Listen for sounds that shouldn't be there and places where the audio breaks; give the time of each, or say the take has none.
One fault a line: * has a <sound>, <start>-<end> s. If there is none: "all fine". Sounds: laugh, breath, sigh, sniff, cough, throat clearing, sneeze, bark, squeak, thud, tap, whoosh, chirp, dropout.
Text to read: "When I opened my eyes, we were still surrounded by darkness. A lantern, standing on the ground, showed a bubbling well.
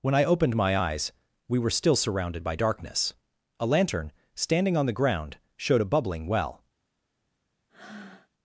* has a breath, 7.7-8.3 s